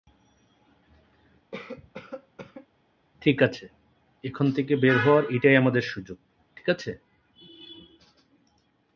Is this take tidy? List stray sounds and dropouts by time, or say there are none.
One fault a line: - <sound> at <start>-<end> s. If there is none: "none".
- cough at 1.5-2.7 s